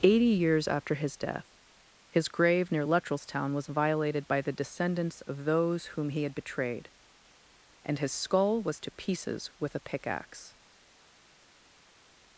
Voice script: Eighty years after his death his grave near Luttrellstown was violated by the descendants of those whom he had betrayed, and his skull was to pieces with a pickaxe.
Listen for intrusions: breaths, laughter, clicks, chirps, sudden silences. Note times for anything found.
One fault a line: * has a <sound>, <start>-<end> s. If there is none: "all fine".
all fine